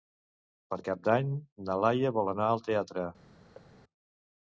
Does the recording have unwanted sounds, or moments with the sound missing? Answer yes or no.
yes